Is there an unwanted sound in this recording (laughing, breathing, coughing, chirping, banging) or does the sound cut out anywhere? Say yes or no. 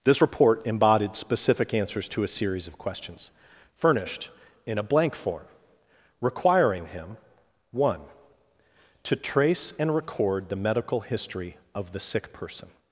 no